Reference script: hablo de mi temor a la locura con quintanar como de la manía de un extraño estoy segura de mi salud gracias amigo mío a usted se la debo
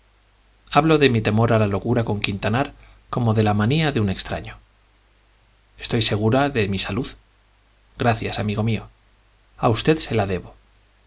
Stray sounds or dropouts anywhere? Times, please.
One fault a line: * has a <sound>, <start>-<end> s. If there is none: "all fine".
all fine